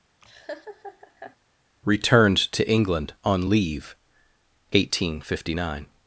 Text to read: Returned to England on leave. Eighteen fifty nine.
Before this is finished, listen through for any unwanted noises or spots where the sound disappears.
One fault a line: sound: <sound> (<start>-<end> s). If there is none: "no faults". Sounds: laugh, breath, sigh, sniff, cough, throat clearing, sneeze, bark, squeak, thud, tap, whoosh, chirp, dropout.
sound: laugh (0.2-1.4 s)